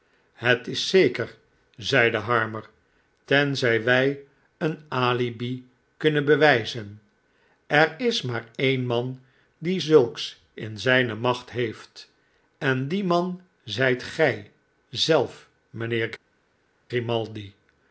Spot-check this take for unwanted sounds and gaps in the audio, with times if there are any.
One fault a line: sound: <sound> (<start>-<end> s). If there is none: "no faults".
no faults